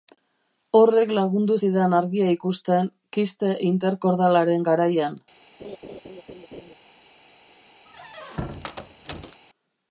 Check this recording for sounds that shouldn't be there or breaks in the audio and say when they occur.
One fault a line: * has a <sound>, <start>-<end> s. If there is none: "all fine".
* has a laugh, 5.6-6.7 s
* has a squeak, 7.8-9.4 s